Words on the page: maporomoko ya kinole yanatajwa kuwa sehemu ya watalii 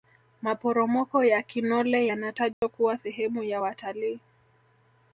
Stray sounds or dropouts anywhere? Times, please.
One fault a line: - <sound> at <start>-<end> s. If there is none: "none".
- dropout at 2.5-2.6 s